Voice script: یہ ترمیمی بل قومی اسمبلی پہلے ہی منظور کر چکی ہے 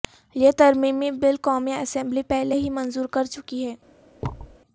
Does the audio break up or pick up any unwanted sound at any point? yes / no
yes